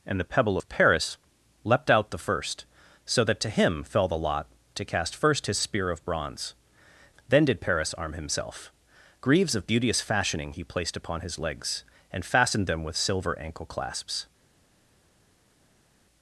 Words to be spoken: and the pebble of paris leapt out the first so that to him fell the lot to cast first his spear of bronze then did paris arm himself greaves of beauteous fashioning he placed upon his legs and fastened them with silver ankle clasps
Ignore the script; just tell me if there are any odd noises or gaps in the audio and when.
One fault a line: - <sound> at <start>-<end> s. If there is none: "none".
none